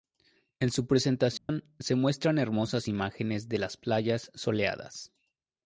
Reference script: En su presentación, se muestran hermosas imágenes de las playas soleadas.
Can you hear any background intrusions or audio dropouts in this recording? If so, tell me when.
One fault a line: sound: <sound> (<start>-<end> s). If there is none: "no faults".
sound: dropout (1.4-1.5 s)